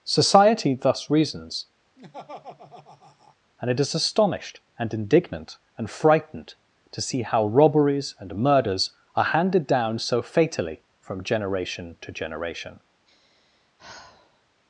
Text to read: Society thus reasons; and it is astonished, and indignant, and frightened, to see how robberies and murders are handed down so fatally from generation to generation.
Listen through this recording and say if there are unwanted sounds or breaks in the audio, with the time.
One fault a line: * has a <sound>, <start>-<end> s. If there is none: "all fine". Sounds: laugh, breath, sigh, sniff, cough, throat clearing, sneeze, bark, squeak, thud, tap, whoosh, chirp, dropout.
* has a laugh, 2.0-3.4 s
* has a sigh, 13.1-14.4 s